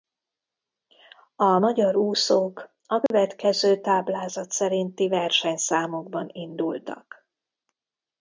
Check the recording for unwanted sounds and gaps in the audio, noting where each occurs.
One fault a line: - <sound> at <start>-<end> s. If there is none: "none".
- dropout at 3.1-3.1 s